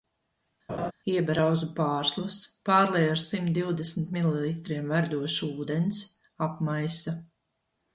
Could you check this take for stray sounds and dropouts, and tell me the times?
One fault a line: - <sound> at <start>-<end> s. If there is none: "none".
- laugh at 0.7-0.9 s